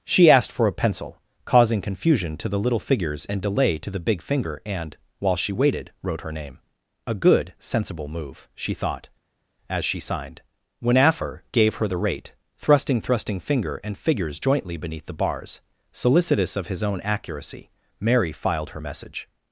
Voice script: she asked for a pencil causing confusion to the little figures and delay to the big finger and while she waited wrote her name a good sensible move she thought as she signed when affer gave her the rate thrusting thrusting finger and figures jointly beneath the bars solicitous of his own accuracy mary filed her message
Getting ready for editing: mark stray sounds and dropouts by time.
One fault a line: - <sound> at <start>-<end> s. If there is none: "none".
none